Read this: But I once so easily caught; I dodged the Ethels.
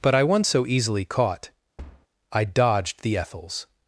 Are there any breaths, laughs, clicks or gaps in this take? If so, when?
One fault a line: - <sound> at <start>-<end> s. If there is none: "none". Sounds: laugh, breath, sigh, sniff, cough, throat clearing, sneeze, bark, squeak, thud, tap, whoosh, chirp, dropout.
- thud at 1.8-2.1 s